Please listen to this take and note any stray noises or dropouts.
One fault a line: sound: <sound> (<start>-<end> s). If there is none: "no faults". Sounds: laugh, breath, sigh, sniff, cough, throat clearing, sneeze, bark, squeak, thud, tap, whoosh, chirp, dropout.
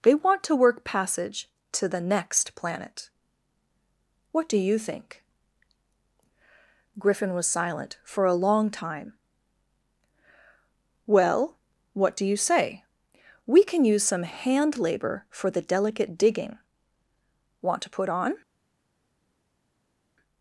no faults